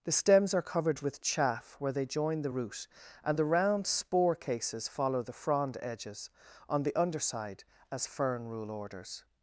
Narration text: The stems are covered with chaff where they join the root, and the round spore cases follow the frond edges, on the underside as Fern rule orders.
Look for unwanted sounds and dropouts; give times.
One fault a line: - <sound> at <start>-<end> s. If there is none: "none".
none